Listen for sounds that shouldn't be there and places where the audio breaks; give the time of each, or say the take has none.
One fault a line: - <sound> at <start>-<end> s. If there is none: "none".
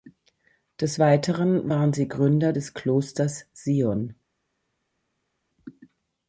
none